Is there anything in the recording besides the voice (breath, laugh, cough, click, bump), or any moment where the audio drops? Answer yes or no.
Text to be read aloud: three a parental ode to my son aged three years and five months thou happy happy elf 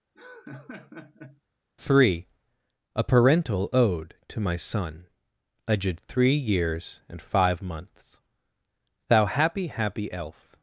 yes